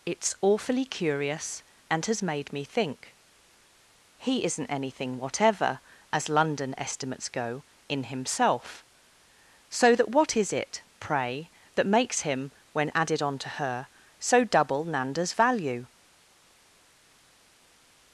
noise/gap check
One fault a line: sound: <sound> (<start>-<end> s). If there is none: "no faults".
no faults